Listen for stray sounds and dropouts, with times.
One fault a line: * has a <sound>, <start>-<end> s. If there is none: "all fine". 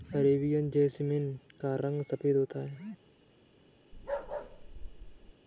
* has a bark, 3.9-5.3 s